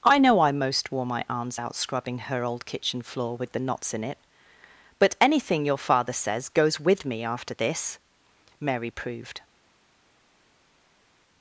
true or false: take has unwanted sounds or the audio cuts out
false